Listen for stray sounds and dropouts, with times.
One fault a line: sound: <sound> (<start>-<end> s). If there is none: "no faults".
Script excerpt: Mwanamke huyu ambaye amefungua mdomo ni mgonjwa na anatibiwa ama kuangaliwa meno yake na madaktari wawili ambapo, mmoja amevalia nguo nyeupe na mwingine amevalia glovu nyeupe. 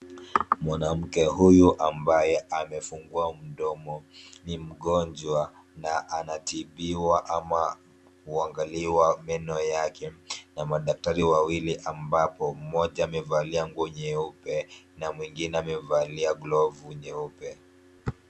no faults